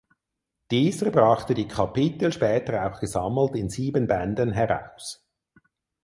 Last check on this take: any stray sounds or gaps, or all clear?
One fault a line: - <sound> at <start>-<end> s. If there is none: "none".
none